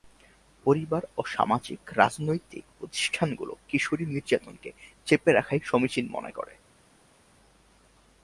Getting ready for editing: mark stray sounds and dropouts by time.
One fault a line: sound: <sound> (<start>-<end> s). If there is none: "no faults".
no faults